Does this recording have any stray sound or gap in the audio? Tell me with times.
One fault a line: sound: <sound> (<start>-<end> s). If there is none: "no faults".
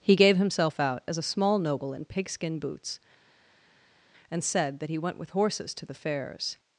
no faults